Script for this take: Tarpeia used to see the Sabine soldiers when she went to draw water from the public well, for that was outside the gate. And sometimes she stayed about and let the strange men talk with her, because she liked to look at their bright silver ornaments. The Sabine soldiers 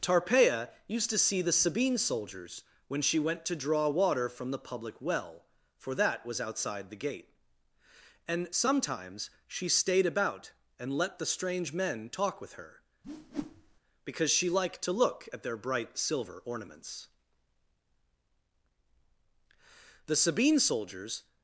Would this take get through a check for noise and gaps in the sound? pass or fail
fail